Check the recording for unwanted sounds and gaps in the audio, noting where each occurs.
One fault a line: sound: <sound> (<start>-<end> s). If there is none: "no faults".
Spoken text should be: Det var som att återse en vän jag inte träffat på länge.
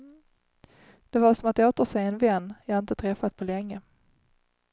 no faults